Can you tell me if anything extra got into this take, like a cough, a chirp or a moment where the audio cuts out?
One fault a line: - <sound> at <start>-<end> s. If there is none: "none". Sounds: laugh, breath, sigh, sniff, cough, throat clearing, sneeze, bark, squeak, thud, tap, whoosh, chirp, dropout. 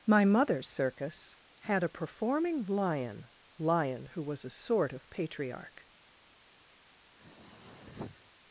- throat clearing at 7.1-8.3 s